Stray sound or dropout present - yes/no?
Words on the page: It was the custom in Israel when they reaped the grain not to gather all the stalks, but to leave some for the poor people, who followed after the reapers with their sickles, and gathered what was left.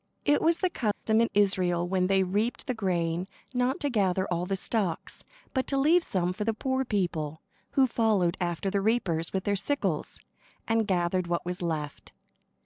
yes